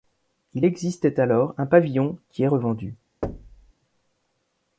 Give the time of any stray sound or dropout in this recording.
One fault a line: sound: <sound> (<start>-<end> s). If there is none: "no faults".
sound: thud (3.2-3.7 s)